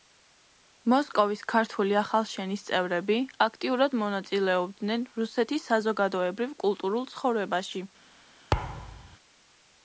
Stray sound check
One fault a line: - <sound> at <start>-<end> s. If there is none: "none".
- thud at 8.5-9.2 s